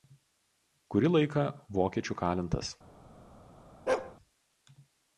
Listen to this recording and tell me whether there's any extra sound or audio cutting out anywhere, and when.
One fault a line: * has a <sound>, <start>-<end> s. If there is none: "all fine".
* has a bark, 3.9-4.2 s